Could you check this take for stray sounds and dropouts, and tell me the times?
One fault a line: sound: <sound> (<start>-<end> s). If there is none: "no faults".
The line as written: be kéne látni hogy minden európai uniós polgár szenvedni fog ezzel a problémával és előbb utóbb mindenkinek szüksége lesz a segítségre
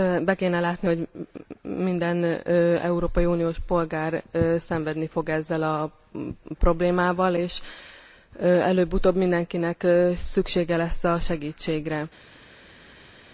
no faults